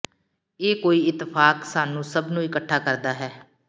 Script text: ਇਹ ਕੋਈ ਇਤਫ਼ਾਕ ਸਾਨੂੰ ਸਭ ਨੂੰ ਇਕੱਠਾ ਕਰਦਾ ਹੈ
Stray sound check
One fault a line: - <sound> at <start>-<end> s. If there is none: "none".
none